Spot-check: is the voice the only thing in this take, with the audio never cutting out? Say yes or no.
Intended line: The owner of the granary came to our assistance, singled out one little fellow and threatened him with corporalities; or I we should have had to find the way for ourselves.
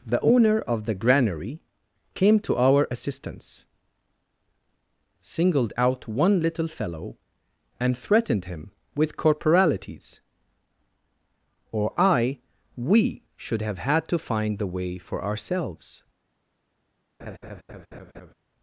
no